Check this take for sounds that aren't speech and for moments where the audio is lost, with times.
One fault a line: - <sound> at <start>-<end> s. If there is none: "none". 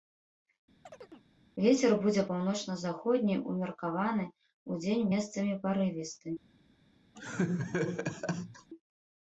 - chirp at 0.9-1.3 s
- laugh at 7.1-8.7 s